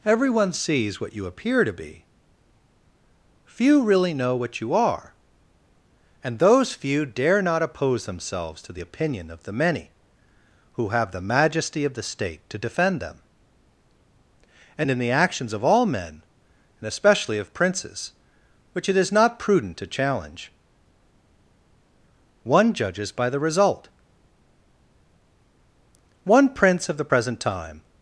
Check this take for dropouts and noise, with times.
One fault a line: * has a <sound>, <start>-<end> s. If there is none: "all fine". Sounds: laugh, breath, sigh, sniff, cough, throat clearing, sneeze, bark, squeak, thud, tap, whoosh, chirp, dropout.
all fine